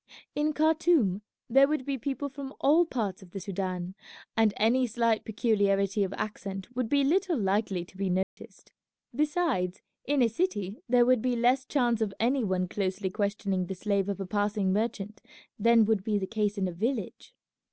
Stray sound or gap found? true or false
true